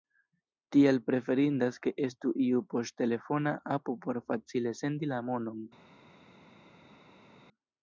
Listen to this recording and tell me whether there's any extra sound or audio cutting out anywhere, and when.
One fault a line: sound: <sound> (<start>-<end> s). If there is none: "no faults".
no faults